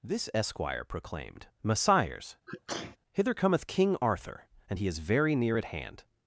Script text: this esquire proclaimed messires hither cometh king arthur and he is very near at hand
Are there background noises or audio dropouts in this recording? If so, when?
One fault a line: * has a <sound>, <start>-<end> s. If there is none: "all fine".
* has a sneeze, 2.5-3.0 s